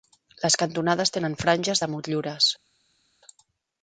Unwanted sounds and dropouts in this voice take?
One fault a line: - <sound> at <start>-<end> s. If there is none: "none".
none